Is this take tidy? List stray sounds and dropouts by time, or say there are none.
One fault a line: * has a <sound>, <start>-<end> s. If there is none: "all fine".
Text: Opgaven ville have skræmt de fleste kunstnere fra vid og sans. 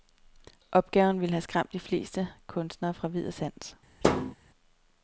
* has a thud, 4.0-4.4 s